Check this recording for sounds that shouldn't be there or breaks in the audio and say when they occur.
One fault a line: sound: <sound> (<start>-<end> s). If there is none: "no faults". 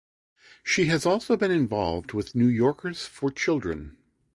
no faults